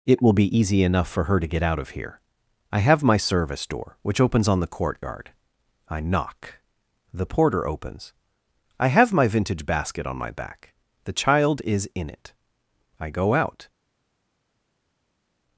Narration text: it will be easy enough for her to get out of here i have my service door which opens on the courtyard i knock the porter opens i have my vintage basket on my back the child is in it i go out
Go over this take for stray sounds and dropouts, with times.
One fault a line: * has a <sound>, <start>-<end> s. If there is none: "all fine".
all fine